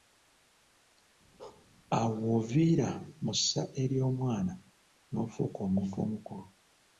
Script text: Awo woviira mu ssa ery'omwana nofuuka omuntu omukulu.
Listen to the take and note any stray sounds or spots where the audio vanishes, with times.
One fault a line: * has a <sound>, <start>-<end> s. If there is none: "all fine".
* has a bark, 1.4-1.7 s